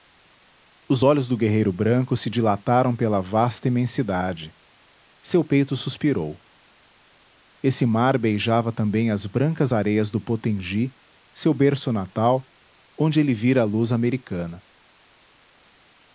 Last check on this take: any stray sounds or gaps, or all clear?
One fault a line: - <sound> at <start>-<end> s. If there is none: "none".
none